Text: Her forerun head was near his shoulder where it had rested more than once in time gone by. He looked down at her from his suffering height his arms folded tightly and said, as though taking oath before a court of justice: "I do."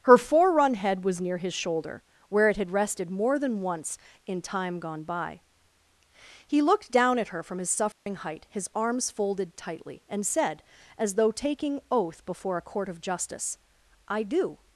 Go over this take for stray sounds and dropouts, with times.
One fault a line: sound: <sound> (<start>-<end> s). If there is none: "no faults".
sound: dropout (7.9-8.1 s)